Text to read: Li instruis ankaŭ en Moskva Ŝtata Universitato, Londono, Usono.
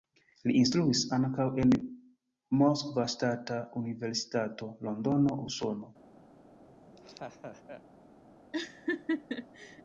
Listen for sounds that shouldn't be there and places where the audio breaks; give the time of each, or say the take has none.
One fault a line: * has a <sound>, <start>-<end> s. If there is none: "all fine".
* has a laugh, 6.7-7.8 s
* has a laugh, 8.5-9.8 s